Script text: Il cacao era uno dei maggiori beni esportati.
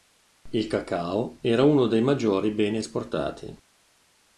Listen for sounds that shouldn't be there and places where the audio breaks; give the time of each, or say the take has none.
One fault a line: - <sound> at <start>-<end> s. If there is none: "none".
none